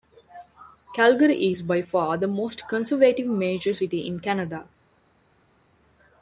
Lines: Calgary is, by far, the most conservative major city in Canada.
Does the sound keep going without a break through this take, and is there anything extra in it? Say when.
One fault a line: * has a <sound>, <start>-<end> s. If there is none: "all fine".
all fine